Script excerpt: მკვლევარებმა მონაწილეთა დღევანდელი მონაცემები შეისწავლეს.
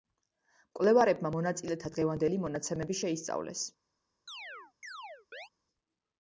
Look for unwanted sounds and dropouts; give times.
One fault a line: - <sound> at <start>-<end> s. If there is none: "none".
- chirp at 4.3-5.5 s